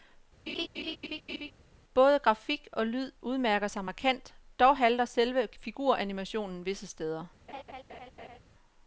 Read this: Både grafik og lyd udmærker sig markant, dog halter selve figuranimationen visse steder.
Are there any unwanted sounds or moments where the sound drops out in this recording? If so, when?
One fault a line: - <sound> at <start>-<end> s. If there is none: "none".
- laugh at 0.5-1.5 s
- laugh at 7.5-8.4 s